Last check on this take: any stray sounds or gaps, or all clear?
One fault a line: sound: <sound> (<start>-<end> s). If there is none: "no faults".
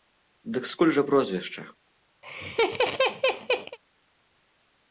sound: laugh (2.2-3.8 s)